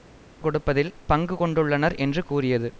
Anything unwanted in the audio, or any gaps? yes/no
no